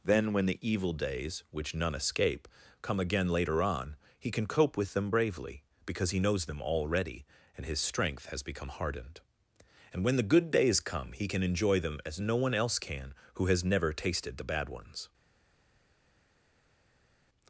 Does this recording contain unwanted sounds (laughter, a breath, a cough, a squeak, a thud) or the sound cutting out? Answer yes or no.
no